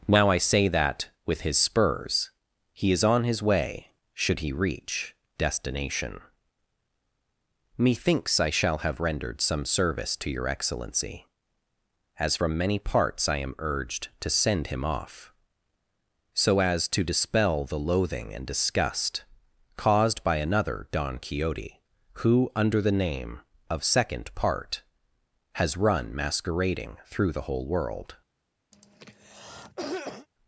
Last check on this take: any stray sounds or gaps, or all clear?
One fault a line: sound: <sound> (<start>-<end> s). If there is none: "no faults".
sound: cough (28.7-30.3 s)